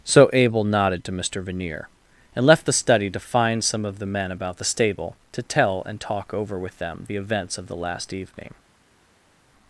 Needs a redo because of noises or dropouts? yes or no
no